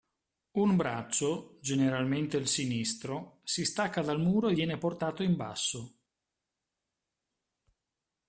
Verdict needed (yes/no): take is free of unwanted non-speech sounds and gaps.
yes